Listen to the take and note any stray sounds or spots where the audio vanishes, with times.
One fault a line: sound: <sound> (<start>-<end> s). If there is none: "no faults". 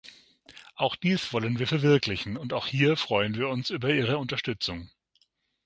no faults